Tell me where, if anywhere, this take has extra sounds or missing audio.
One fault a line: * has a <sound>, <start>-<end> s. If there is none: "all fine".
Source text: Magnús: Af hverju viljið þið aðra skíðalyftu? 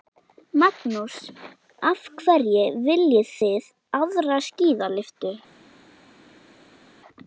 all fine